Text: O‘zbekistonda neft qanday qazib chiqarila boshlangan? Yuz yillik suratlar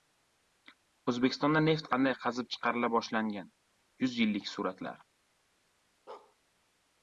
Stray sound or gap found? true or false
true